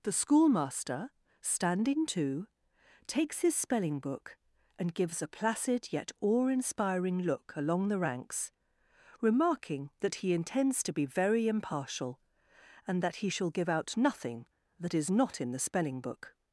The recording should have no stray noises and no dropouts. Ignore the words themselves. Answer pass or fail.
pass